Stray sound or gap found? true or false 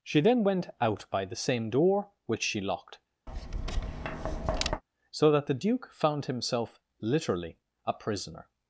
true